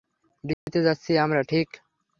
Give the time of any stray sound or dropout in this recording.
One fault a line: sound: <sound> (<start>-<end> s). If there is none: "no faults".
sound: dropout (0.5-0.7 s)